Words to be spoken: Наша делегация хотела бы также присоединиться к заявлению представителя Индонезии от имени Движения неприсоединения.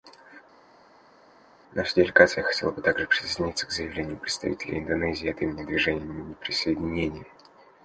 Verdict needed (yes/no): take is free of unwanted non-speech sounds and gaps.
yes